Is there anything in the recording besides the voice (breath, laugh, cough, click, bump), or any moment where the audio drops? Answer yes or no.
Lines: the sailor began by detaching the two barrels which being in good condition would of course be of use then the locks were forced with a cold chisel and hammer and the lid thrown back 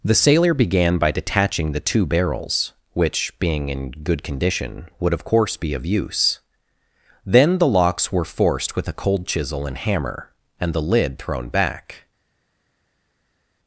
no